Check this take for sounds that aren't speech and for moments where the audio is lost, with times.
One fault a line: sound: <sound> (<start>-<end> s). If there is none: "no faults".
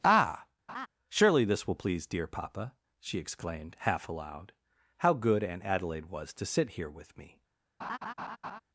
sound: laugh (0.7-0.9 s)
sound: laugh (7.8-8.6 s)